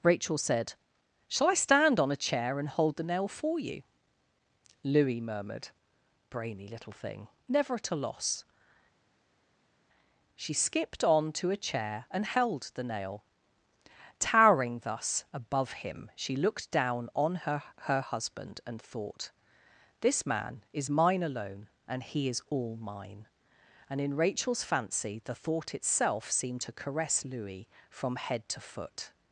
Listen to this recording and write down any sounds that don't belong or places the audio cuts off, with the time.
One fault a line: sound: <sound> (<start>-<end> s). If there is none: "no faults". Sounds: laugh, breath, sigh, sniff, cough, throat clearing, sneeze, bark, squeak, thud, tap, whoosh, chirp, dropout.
no faults